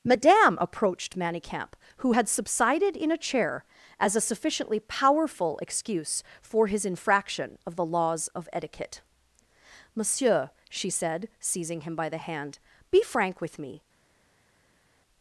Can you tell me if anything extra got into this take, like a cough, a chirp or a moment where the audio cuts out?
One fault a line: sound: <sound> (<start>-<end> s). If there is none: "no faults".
no faults